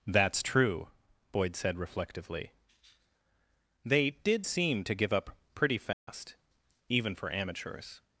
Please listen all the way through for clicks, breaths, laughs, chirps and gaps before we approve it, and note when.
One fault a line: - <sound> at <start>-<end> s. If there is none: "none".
- dropout at 5.9-6.1 s